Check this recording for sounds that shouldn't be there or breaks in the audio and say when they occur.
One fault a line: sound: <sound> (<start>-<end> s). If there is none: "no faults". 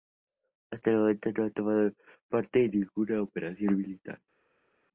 no faults